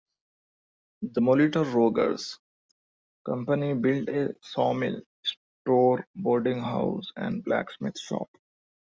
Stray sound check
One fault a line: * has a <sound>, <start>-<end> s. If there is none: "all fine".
all fine